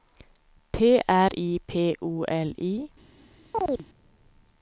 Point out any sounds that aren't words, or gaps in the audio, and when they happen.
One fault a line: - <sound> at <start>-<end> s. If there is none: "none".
- chirp at 3.5-3.9 s